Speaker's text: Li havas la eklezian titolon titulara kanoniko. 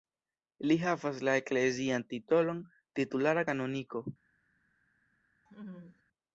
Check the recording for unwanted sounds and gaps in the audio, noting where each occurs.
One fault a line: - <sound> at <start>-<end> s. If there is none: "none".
- laugh at 5.5-6.0 s